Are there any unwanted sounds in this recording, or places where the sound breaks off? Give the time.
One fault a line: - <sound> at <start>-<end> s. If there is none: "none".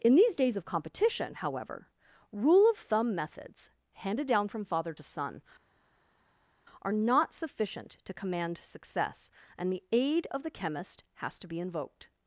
none